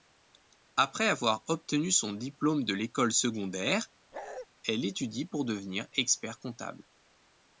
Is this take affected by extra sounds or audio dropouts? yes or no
yes